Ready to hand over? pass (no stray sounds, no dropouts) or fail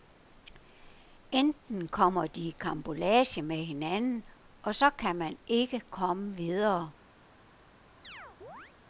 fail